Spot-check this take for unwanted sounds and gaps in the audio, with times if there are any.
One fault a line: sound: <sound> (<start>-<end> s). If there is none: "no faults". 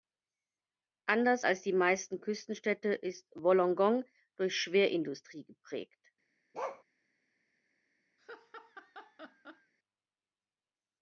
sound: bark (6.5-6.8 s)
sound: laugh (8.2-9.7 s)